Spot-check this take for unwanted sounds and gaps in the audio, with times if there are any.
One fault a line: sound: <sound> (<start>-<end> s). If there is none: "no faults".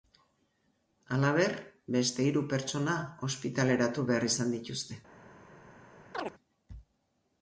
sound: chirp (6.1-6.3 s)